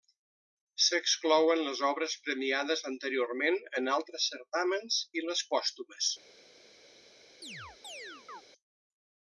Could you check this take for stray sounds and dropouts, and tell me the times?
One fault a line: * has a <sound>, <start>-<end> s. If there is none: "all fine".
* has a chirp, 7.4-8.4 s